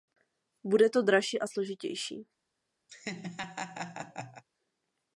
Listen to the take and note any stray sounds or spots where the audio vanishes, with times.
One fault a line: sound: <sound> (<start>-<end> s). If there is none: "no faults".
sound: laugh (2.9-4.4 s)